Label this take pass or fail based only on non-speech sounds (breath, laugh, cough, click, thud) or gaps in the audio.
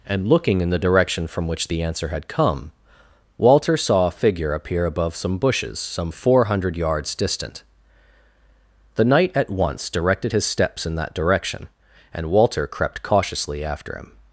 pass